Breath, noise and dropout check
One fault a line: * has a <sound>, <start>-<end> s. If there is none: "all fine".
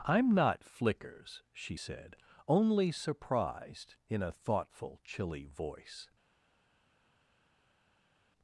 all fine